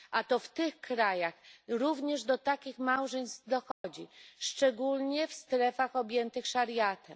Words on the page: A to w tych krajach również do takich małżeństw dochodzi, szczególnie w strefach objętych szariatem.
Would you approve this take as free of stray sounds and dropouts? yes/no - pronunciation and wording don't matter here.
no